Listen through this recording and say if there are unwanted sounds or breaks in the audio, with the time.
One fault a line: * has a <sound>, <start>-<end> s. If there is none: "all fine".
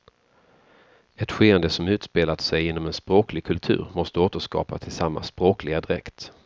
all fine